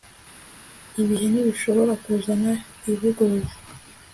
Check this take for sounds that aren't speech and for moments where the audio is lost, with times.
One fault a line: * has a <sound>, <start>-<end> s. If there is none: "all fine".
all fine